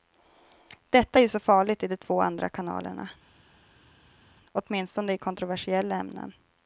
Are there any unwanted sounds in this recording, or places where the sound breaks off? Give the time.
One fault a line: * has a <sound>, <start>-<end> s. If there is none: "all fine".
all fine